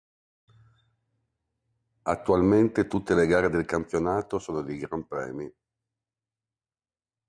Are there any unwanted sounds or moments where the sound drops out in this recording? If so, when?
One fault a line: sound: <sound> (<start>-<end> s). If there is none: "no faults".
no faults